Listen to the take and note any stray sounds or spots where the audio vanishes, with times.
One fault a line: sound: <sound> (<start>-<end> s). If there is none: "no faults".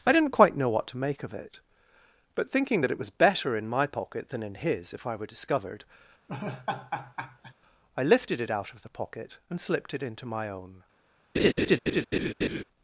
sound: laugh (6.3-7.5 s)
sound: laugh (11.3-12.6 s)